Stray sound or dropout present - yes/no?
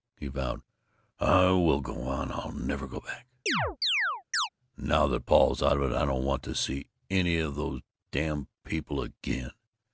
yes